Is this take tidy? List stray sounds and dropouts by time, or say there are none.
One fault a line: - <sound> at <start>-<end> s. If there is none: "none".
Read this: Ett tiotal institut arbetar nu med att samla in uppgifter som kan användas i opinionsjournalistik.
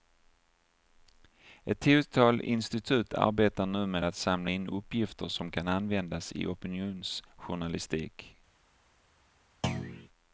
- thud at 9.6-10.1 s